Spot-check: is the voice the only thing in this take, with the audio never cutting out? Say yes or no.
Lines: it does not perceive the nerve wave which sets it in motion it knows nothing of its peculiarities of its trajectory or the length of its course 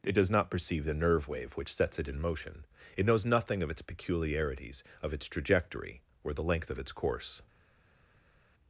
yes